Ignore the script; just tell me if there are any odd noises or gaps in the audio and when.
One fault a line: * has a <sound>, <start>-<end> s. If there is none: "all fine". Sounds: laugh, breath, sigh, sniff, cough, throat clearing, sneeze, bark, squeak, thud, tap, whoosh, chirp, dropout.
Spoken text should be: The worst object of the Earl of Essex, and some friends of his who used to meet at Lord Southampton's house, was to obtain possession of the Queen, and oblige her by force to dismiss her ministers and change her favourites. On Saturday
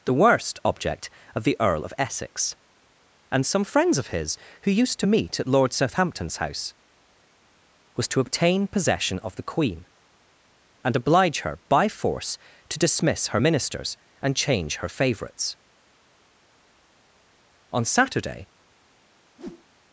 * has a whoosh, 19.4-19.7 s